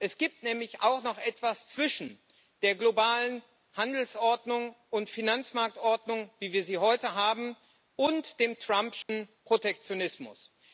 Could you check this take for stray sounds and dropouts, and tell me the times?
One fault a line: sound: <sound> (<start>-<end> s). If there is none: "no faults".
sound: dropout (9.0-9.1 s)